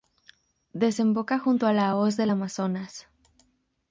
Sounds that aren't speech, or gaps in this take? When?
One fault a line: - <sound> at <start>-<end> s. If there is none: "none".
none